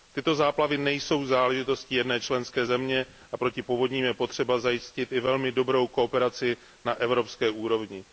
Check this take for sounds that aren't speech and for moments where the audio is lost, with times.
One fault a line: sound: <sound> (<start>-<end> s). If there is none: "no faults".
no faults